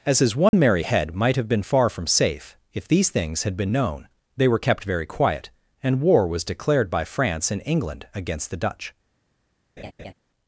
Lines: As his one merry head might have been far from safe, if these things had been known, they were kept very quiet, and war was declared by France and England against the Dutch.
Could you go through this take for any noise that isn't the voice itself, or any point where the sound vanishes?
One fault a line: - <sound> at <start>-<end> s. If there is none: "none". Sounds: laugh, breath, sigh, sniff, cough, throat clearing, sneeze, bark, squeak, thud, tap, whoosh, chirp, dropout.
- dropout at 0.5-0.5 s
- laugh at 9.8-10.1 s